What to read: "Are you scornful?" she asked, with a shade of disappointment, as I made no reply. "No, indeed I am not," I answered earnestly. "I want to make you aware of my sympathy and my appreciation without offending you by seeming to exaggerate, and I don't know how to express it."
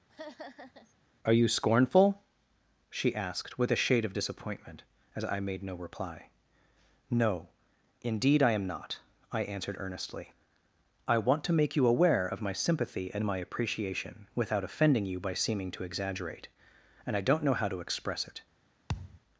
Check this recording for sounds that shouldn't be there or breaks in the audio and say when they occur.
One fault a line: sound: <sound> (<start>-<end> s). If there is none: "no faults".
sound: laugh (0.1-0.9 s)
sound: thud (18.9-19.2 s)